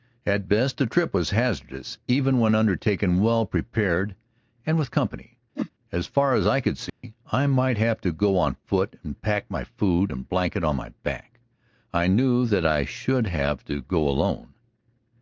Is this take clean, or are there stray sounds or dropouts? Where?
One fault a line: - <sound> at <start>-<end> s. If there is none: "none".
- whoosh at 5.6-5.7 s
- dropout at 6.9-7.0 s